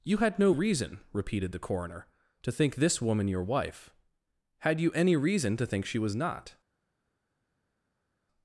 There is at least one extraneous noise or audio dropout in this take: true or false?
false